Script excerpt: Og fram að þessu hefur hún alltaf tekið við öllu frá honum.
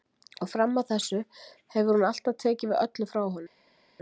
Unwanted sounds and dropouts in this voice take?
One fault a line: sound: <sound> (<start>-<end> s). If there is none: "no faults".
no faults